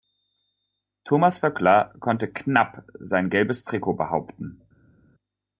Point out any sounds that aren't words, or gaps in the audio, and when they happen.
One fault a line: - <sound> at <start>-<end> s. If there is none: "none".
none